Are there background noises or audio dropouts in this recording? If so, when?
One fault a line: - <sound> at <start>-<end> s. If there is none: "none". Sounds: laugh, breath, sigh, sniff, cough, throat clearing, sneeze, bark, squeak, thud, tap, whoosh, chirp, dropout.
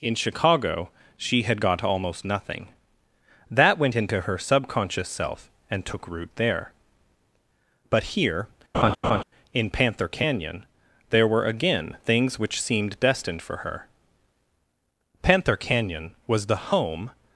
- laugh at 8.7-9.2 s